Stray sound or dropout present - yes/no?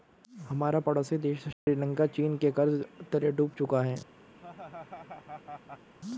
yes